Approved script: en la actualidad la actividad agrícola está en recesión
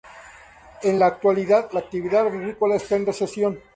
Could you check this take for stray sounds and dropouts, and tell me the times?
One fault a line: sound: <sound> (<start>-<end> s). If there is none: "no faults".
no faults